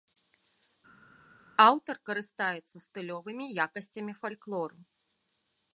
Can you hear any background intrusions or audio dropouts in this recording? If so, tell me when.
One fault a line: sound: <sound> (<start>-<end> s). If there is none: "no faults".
no faults